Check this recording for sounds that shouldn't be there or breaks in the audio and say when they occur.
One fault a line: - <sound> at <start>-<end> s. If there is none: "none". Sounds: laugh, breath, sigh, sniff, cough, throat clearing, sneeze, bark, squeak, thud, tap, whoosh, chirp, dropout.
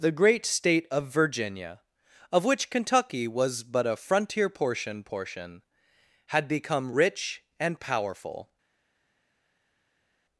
none